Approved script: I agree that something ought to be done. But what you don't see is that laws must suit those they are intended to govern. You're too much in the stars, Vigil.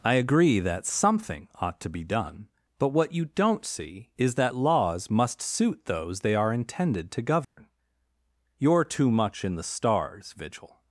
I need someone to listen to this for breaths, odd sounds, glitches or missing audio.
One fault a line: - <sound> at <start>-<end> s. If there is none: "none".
- dropout at 7.4-7.6 s